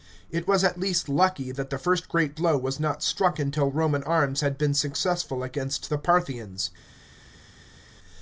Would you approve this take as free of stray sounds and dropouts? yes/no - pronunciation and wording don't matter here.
yes